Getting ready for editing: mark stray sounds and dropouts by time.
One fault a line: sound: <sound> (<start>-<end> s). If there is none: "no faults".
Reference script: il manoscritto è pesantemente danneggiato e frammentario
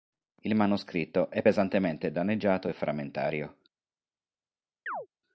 sound: chirp (4.9-5.1 s)